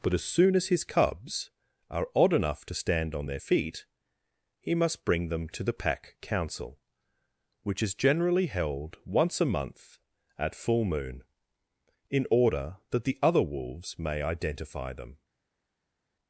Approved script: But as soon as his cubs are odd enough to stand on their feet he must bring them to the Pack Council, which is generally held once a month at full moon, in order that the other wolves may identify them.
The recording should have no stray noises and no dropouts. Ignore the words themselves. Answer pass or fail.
pass